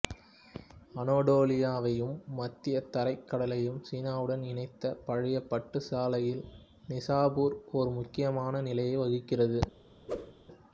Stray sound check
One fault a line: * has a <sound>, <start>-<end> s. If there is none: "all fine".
* has a whoosh, 10.1-10.3 s